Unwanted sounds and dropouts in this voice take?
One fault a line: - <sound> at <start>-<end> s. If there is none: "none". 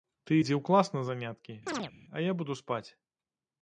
- chirp at 1.7-1.9 s